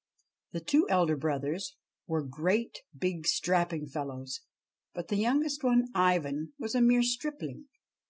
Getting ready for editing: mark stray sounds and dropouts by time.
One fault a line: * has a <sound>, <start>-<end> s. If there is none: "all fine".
all fine